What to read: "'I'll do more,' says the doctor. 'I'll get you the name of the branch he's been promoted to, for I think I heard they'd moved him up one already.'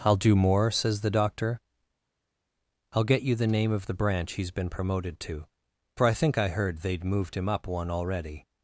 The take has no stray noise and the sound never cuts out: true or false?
true